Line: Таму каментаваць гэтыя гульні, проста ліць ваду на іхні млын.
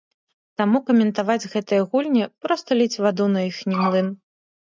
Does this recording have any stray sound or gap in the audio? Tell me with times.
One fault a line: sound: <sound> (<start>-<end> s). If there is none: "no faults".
no faults